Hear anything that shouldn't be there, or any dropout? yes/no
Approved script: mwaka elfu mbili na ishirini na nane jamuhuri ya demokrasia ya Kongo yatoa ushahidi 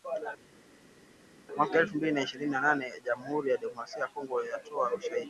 no